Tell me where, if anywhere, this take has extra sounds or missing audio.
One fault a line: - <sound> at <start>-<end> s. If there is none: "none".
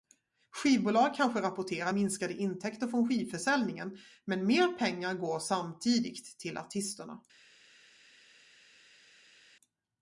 none